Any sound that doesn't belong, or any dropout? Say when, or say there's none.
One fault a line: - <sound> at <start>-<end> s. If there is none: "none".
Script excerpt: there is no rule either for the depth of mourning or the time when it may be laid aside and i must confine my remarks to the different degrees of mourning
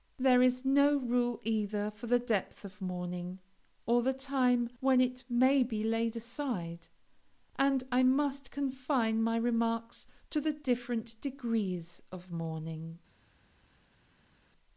none